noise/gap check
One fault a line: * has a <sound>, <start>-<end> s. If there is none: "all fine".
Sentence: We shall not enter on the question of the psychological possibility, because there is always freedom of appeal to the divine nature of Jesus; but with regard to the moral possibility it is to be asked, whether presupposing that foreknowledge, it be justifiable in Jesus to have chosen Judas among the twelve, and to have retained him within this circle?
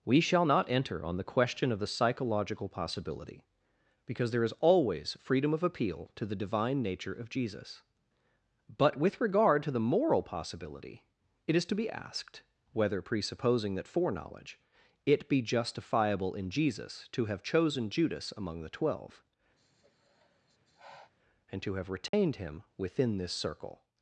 * has a sigh, 19.6-21.1 s
* has a dropout, 22.1-22.1 s